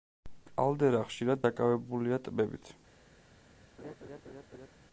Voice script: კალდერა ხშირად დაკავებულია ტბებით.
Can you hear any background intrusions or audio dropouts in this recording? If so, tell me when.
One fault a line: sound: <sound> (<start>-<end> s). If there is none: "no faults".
sound: laugh (3.8-4.7 s)